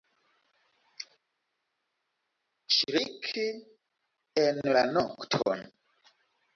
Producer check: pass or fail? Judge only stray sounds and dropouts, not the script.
pass